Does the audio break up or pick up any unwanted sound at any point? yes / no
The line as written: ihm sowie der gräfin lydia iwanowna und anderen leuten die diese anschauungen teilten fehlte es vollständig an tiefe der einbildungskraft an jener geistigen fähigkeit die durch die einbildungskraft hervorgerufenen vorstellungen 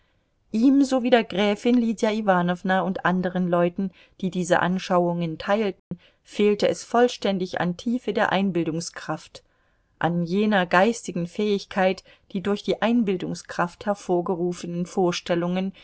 yes